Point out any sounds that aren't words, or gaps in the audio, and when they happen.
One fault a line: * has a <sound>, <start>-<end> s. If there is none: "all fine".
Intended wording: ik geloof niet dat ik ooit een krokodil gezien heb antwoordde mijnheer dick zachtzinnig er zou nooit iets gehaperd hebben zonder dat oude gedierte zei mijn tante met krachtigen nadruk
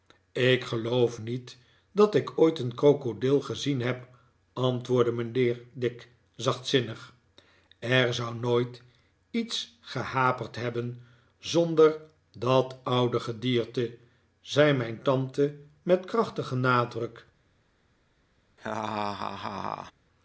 * has a laugh, 18.6-19.9 s